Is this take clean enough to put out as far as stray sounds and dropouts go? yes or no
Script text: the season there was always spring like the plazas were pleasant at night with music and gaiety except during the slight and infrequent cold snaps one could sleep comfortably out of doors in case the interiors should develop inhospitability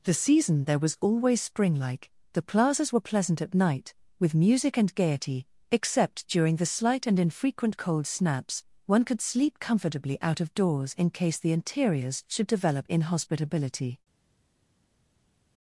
yes